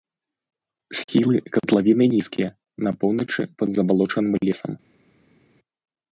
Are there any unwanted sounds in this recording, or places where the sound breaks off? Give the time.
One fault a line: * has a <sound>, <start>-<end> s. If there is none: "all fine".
all fine